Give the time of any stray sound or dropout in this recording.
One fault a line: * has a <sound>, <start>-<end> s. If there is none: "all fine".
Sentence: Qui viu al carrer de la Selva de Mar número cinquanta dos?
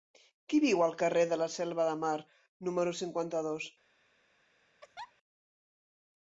* has a laugh, 4.8-5.1 s